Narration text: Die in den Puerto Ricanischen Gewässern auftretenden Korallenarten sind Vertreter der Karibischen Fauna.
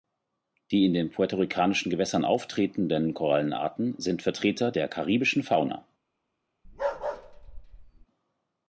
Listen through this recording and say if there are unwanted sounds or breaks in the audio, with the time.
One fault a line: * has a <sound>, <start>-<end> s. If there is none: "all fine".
* has a bark, 6.6-8.1 s